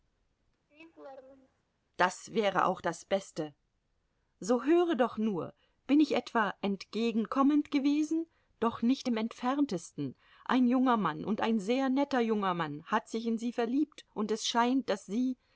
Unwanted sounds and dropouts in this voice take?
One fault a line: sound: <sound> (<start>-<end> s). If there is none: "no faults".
sound: laugh (0.7-1.6 s)